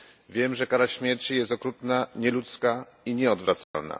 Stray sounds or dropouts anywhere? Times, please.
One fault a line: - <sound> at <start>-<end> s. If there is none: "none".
- dropout at 3.6-3.7 s